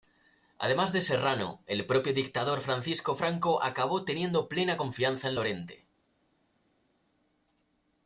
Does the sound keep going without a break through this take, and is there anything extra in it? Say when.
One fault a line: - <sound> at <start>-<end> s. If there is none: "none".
none